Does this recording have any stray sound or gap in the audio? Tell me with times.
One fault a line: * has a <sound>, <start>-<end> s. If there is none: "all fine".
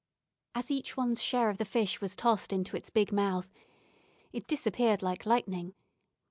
all fine